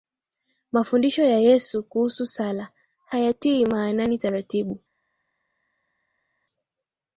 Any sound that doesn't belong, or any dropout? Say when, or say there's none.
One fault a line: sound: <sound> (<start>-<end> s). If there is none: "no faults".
no faults